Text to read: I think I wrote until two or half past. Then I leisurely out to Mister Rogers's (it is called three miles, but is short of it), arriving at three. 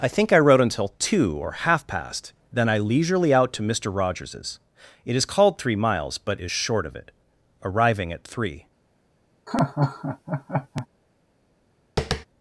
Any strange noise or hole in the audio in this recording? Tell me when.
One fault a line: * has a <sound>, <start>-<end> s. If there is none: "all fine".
* has a laugh, 9.5-10.9 s
* has a tap, 12.0-12.3 s